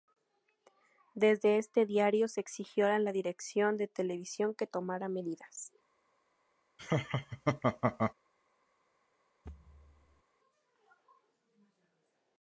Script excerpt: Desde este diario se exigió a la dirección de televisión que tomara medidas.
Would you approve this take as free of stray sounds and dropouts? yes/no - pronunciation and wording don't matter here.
no